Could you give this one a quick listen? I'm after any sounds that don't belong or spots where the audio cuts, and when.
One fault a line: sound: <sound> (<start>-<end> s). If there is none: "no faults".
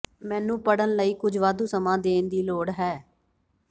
no faults